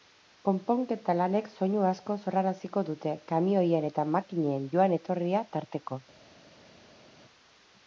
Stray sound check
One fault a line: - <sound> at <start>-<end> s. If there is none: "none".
none